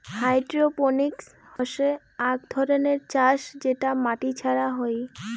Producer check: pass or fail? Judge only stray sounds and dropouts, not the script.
fail